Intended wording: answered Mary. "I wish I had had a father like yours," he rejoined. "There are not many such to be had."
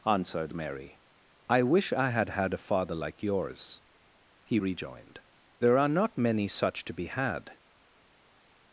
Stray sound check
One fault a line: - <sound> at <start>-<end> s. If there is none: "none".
none